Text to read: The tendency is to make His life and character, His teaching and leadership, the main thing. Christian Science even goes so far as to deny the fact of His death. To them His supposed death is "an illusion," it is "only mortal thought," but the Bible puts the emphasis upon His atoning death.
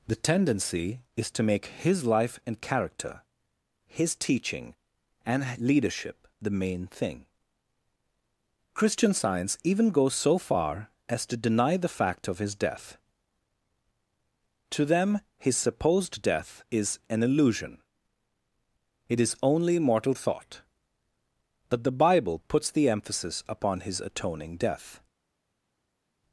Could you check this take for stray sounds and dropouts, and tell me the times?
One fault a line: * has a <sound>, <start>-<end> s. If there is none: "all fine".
all fine